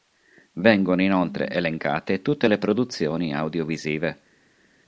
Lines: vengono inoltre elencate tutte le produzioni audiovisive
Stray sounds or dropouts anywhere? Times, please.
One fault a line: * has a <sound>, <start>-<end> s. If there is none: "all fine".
all fine